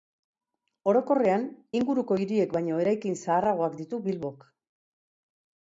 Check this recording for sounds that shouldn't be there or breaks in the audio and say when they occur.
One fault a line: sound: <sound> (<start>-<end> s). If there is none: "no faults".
no faults